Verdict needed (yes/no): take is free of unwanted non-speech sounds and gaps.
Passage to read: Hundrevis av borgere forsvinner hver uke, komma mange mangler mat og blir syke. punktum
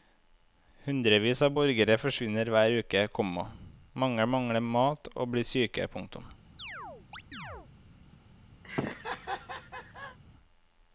no